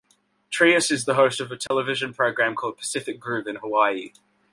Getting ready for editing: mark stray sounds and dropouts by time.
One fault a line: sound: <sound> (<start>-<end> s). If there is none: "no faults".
sound: dropout (1.7-1.7 s)